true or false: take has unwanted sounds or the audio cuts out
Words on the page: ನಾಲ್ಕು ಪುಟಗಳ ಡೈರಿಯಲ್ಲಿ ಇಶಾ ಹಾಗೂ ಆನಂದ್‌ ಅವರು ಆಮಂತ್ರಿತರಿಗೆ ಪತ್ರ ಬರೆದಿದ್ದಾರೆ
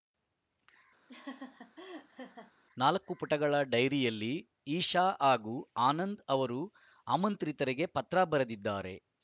true